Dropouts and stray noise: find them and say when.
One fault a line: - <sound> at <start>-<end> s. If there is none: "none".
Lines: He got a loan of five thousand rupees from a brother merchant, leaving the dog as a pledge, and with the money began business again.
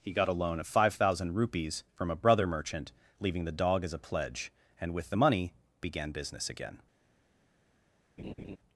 - laugh at 8.2-8.6 s